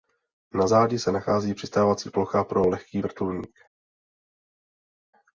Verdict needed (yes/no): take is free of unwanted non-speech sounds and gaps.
yes